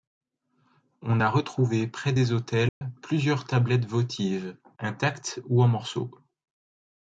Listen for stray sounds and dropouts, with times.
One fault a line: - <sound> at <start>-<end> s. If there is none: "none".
- dropout at 2.7-2.8 s